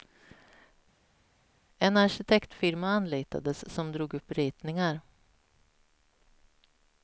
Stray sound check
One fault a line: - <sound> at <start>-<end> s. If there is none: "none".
none